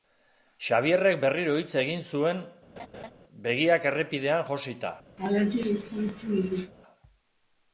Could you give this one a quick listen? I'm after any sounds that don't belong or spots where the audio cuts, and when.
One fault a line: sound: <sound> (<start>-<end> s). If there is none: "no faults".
sound: laugh (2.8-3.1 s)
sound: laugh (5.2-6.7 s)